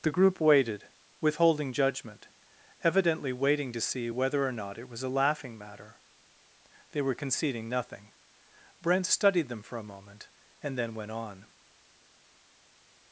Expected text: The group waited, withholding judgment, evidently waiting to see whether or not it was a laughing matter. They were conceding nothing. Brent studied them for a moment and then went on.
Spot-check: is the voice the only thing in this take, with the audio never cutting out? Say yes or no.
yes